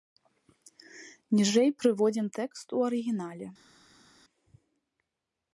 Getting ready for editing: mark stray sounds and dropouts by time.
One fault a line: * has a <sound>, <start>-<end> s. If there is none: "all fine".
all fine